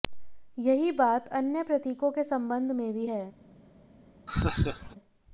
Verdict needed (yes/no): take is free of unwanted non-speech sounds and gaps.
no